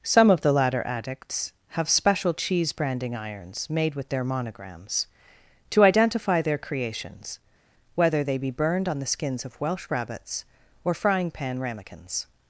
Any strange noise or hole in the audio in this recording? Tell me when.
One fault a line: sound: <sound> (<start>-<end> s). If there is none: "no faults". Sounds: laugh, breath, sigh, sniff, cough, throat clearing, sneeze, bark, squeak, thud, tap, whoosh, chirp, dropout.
no faults